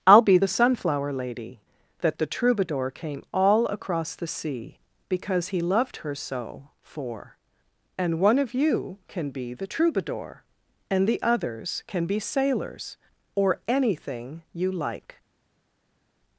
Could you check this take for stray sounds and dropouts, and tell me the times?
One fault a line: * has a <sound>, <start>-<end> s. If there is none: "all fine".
all fine